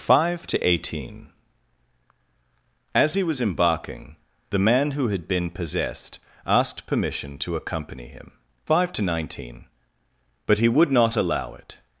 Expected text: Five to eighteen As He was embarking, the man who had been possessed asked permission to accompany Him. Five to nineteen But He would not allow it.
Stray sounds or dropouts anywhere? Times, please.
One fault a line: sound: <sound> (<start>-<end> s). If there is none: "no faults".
no faults